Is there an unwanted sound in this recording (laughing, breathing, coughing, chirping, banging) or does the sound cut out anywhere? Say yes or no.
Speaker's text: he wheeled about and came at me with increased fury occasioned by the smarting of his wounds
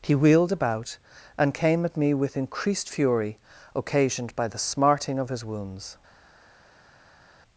no